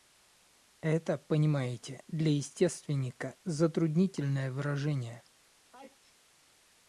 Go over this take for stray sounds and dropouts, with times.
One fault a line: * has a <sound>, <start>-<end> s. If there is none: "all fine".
* has a sneeze, 5.7-6.2 s